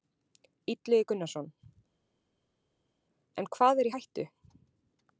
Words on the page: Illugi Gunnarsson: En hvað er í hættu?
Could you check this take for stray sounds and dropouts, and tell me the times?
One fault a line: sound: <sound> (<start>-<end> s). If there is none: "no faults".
no faults